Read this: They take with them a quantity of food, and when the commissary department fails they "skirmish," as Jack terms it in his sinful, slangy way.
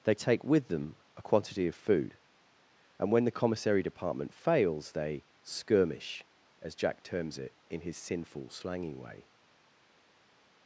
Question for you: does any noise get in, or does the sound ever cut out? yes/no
no